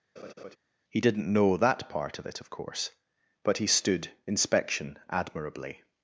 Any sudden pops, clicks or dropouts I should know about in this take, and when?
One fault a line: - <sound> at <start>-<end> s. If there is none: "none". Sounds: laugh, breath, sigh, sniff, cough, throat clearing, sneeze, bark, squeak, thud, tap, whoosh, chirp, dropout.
- laugh at 0.2-0.6 s